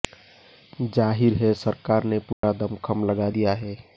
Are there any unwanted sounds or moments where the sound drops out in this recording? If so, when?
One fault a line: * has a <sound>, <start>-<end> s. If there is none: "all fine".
* has a dropout, 2.3-2.4 s